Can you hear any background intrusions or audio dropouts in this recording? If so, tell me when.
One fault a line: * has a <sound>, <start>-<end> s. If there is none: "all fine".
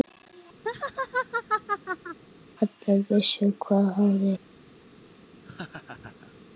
* has a laugh, 0.6-2.2 s
* has a laugh, 5.4-6.4 s